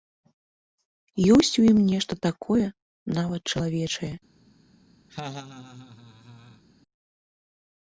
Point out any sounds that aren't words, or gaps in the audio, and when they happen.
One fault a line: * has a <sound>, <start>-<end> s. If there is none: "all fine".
* has a laugh, 5.1-6.6 s